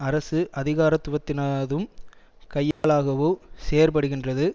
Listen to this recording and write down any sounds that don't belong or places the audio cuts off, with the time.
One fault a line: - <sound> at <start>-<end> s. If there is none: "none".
- dropout at 2.7-2.8 s